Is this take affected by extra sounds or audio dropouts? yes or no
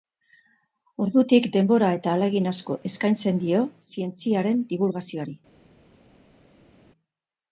no